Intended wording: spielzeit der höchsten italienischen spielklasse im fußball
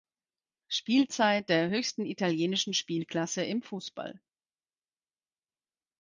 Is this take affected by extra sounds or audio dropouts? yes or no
no